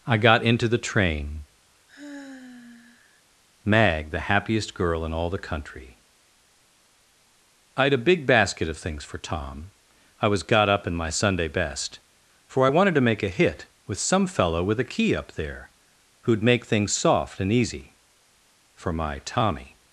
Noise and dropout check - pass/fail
fail